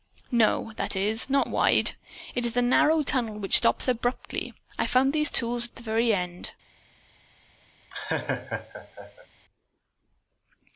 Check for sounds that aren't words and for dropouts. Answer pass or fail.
fail